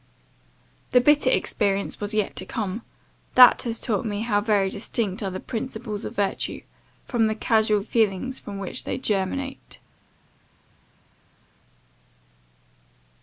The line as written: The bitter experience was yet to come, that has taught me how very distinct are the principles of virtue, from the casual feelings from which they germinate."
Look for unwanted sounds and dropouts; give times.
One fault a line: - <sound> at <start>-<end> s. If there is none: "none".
none